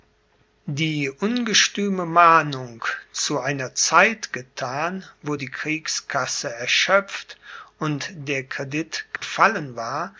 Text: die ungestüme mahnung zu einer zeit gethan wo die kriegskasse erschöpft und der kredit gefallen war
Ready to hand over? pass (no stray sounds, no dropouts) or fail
fail